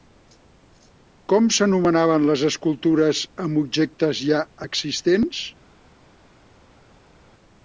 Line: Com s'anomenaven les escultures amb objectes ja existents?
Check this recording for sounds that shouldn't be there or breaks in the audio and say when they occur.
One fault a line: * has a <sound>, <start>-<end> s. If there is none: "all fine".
all fine